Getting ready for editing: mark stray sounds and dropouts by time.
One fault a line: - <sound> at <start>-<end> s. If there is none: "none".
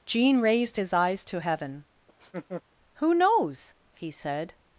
- laugh at 2.1-2.6 s